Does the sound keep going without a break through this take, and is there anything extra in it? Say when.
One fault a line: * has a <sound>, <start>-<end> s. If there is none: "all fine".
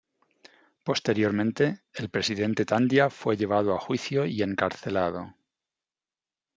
all fine